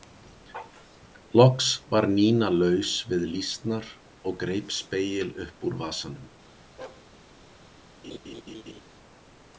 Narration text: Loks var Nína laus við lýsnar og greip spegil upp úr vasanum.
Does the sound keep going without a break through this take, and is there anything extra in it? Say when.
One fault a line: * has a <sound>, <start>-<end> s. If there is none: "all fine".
* has a bark, 6.8-7.1 s
* has a laugh, 8.0-8.8 s